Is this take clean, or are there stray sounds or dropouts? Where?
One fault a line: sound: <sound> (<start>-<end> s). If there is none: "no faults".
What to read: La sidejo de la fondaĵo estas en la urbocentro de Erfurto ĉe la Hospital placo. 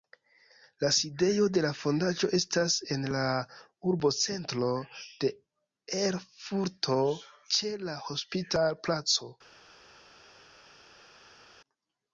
no faults